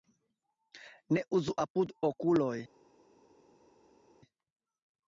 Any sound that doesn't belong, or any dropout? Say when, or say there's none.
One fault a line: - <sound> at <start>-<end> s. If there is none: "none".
none